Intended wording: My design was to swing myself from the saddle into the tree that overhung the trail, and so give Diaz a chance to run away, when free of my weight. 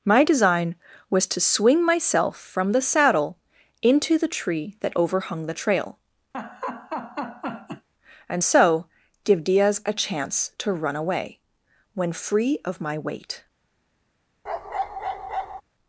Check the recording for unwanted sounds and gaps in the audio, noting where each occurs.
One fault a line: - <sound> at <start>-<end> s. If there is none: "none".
- laugh at 6.3-7.9 s
- bark at 14.5-15.6 s